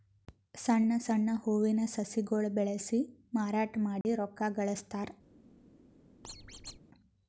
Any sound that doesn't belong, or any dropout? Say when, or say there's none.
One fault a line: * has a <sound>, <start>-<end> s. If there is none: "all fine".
* has a dropout, 4.0-4.0 s
* has a squeak, 6.2-6.8 s